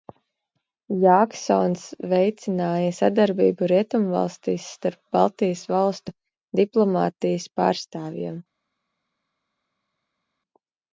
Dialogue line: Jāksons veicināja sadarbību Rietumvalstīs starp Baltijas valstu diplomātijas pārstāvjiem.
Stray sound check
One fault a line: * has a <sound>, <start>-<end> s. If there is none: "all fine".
all fine